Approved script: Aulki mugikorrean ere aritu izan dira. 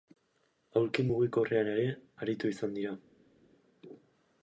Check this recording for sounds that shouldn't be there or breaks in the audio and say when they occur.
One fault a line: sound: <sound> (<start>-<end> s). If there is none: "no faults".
no faults